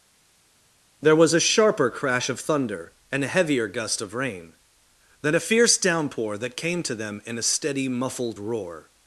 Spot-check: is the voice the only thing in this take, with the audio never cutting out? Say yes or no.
yes